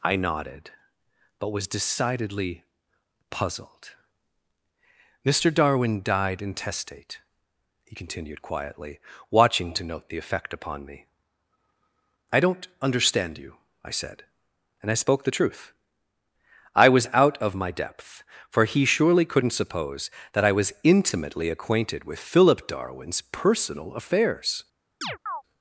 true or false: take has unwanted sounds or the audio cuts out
true